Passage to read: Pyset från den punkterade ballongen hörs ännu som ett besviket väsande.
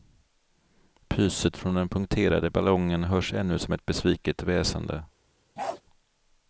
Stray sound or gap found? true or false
true